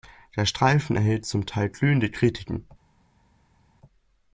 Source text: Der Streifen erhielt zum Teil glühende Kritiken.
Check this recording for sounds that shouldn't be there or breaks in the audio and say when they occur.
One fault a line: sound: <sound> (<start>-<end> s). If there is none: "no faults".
no faults